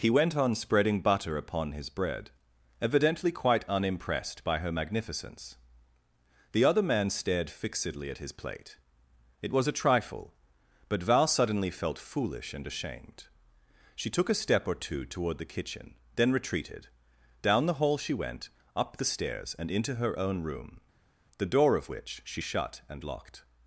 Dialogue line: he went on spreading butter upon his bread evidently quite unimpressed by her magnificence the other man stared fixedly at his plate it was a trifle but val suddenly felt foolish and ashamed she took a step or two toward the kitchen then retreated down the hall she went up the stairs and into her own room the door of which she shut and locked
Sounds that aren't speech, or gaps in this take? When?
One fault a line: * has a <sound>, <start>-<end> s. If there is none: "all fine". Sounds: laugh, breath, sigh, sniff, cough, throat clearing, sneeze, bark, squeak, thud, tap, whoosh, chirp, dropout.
all fine